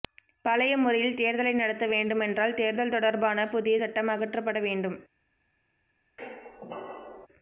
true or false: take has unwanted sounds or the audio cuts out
true